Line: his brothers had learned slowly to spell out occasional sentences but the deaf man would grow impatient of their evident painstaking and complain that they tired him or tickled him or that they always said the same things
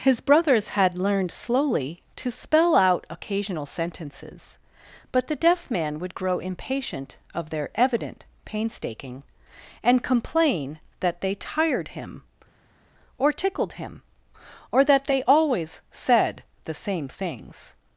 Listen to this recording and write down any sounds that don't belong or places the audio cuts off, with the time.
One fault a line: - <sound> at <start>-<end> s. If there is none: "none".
none